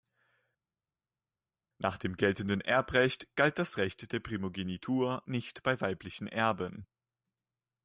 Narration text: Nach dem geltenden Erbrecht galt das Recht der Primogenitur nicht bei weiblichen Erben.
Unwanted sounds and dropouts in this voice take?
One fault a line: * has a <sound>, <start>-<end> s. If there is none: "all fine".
all fine